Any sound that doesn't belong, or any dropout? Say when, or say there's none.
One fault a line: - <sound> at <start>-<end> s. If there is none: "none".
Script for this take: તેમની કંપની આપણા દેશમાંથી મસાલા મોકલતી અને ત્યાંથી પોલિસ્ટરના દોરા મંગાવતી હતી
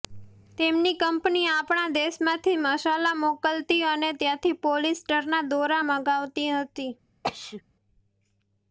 - sneeze at 7.2-7.6 s